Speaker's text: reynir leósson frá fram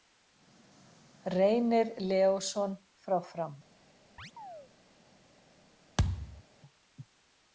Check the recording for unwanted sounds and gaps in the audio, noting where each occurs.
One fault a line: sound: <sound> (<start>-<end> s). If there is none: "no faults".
sound: chirp (4.2-4.7 s)
sound: thud (6.0-6.4 s)